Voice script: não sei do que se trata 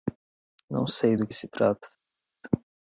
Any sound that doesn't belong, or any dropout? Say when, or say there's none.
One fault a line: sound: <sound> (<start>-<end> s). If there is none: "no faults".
no faults